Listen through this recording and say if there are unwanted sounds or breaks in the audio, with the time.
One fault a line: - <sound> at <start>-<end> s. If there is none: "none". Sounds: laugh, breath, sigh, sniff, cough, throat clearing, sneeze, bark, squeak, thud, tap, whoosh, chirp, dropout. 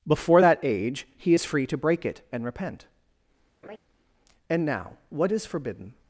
- laugh at 3.6-3.8 s